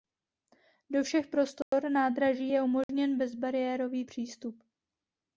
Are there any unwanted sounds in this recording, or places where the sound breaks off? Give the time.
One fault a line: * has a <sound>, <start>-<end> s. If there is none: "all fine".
* has a dropout, 1.6-1.7 s
* has a dropout, 2.8-2.9 s